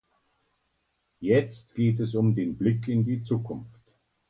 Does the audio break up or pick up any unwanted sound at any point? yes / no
no